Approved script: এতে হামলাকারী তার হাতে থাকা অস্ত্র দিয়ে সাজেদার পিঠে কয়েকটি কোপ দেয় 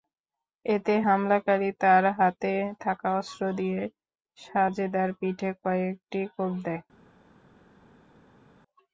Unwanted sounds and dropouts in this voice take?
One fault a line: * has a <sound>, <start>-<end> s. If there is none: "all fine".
all fine